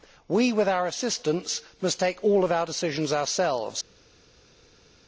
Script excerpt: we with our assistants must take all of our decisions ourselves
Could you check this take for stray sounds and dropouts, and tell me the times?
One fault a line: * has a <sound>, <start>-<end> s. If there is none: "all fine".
all fine